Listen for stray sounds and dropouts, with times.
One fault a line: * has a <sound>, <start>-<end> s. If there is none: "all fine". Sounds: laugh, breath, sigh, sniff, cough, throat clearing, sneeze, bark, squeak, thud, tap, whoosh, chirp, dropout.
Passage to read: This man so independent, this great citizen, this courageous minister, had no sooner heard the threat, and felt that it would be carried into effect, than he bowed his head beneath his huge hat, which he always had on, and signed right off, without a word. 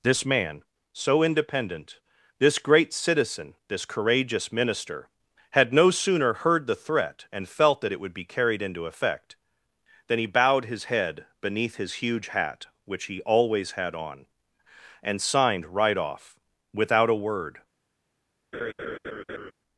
* has a laugh, 18.5-19.5 s